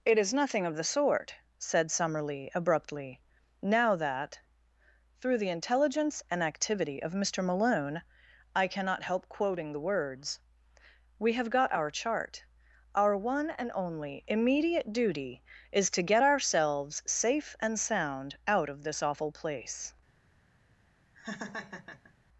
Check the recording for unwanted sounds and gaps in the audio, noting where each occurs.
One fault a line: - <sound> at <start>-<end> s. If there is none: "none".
- laugh at 21.1-22.1 s